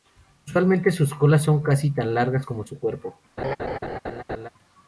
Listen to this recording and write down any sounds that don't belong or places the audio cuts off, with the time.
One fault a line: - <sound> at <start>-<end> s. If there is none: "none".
- laugh at 3.4-4.5 s